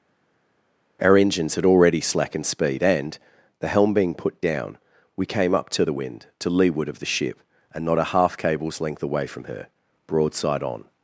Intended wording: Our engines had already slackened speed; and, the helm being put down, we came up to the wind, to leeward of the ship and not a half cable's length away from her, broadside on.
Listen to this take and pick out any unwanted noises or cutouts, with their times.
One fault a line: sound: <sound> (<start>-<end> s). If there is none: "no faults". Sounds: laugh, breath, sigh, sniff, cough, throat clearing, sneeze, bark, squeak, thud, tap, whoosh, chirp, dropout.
no faults